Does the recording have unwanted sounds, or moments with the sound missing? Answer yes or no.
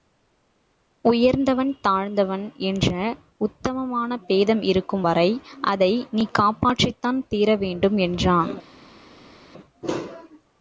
no